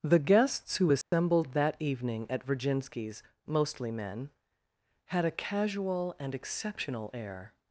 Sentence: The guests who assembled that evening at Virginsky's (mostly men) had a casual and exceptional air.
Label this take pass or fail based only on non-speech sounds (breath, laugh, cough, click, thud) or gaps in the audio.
fail